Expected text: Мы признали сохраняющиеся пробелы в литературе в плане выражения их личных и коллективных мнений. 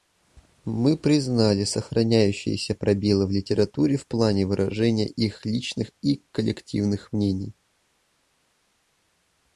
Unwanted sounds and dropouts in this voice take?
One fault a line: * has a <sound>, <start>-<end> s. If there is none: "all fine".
all fine